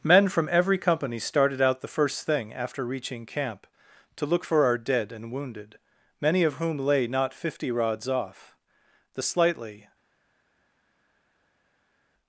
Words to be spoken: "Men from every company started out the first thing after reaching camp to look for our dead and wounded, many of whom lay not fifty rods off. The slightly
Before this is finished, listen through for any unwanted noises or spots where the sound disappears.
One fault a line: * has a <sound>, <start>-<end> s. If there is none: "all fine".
all fine